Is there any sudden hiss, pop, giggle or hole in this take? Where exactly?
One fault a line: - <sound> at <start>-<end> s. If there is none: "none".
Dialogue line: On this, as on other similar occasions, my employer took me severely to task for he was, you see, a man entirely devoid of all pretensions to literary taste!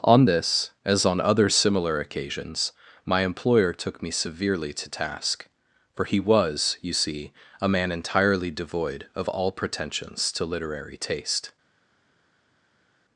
none